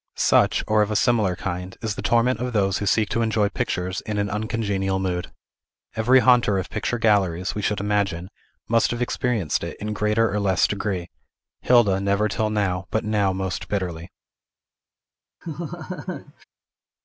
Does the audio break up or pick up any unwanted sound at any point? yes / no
yes